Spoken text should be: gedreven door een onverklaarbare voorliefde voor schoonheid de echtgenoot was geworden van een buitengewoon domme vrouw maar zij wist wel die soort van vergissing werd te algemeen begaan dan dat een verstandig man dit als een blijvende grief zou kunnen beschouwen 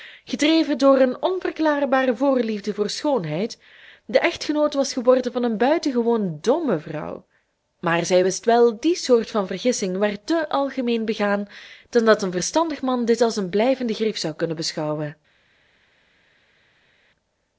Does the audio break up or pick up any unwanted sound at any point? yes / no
no